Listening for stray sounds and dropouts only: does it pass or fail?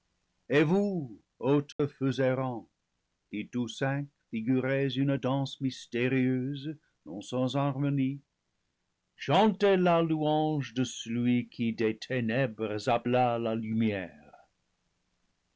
fail